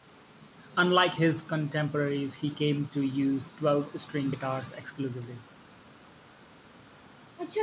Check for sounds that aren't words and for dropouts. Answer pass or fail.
pass